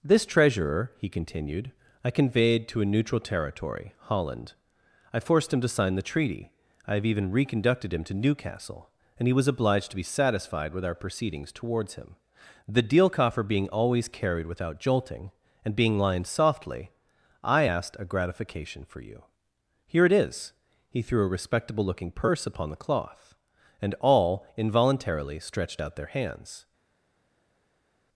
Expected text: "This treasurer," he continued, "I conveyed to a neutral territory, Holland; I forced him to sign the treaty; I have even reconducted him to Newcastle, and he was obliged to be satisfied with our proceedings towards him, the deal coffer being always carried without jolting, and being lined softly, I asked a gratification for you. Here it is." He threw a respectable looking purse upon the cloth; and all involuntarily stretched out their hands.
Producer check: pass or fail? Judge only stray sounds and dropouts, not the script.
pass